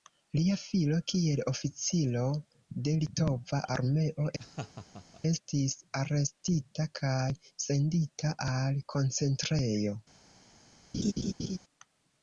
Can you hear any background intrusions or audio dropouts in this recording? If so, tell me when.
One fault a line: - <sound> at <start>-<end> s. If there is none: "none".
- laugh at 4.4-5.2 s
- laugh at 10.9-11.6 s